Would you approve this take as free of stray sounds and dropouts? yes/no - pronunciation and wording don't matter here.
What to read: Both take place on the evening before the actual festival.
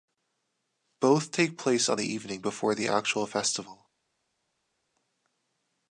yes